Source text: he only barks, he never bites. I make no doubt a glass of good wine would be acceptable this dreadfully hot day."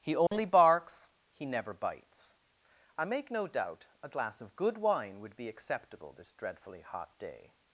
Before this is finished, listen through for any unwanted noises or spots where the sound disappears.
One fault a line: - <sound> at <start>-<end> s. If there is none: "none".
- dropout at 0.3-0.3 s